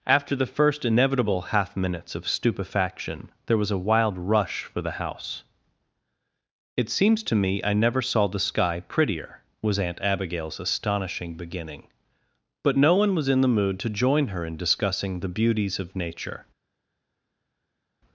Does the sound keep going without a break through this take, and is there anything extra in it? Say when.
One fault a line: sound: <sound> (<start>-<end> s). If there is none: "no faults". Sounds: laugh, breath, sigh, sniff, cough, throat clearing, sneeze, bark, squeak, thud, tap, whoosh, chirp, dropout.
no faults